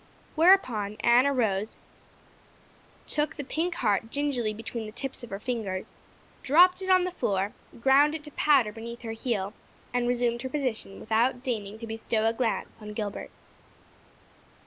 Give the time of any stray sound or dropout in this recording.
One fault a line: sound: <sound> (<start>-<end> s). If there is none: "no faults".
no faults